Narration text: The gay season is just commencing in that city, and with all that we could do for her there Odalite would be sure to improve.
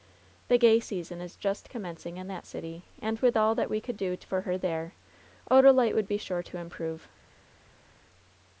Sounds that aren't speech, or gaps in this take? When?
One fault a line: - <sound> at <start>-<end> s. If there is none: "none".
none